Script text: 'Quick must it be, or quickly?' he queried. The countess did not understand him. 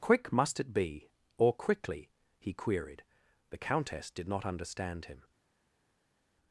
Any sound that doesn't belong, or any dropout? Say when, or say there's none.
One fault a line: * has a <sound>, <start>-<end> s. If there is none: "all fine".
all fine